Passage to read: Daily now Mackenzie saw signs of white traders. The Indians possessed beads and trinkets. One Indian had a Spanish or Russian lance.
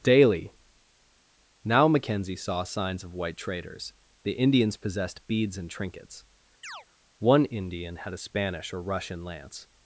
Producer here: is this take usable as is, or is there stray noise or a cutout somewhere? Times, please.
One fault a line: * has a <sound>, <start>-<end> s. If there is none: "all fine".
* has a chirp, 6.6-6.9 s